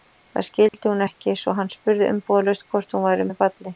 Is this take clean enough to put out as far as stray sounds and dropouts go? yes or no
no